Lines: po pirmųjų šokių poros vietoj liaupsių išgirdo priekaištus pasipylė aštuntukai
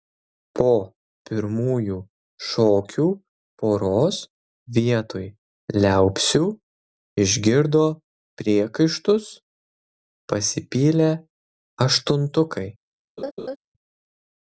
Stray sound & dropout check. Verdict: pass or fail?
fail